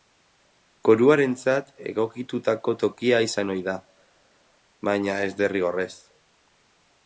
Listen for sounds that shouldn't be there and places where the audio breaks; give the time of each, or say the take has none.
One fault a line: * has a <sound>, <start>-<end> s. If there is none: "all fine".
all fine